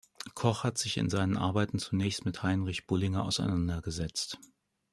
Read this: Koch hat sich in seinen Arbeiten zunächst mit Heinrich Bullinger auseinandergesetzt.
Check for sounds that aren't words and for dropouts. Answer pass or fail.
pass